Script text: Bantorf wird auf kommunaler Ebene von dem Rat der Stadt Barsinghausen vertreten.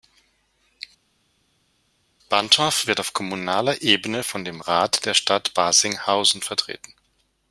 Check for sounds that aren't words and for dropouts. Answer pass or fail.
pass